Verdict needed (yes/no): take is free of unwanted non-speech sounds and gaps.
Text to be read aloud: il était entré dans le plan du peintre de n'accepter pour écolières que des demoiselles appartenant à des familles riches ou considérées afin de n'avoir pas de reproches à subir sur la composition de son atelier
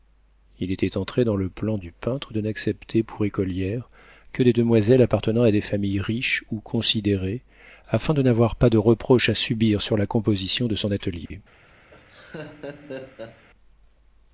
no